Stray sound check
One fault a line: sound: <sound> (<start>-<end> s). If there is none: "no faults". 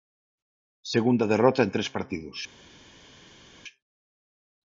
no faults